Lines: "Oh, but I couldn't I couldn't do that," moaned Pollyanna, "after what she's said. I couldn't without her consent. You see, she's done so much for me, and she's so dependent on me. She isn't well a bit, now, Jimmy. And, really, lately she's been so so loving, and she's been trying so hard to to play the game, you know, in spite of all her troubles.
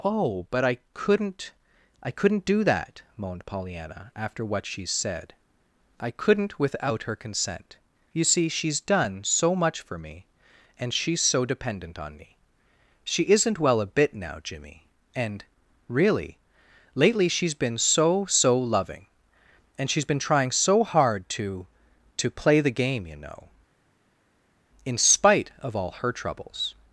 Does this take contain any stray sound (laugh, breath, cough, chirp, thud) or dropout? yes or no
no